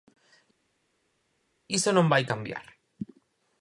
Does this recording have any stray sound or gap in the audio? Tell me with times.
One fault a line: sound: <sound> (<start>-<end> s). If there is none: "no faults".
no faults